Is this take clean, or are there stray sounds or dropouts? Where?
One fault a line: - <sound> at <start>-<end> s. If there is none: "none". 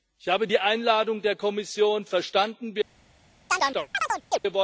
- chirp at 3.5-4.4 s